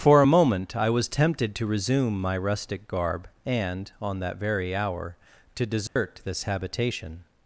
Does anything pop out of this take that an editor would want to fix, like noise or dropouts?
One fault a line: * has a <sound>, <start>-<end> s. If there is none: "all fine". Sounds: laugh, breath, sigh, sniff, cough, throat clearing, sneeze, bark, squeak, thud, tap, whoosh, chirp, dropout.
* has a dropout, 5.9-6.0 s